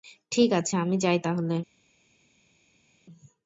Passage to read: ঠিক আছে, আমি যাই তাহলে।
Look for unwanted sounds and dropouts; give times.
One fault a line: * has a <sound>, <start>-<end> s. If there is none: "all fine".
all fine